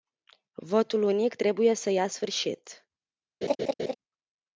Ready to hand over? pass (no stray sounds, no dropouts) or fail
fail